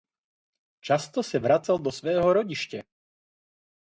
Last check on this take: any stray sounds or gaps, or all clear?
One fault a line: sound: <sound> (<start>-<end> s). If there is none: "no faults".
no faults